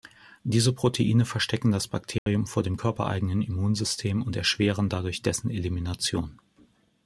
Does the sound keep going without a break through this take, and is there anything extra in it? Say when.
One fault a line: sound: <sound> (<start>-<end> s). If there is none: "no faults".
sound: dropout (2.2-2.3 s)